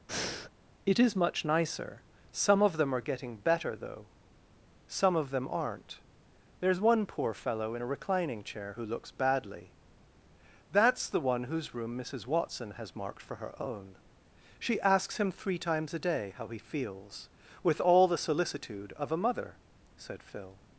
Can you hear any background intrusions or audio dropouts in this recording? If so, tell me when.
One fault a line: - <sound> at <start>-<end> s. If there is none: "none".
- breath at 0.1-0.5 s